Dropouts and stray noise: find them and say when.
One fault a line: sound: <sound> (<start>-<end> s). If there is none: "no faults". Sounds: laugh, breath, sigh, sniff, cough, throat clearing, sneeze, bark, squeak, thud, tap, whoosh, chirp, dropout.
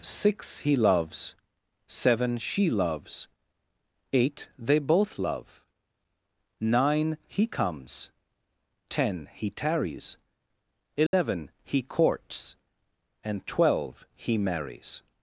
sound: dropout (11.1-11.1 s)